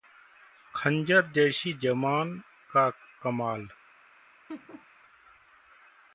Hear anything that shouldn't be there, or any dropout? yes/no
yes